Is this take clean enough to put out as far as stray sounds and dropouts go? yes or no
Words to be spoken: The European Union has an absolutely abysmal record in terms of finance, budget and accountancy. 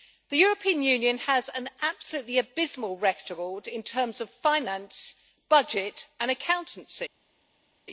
yes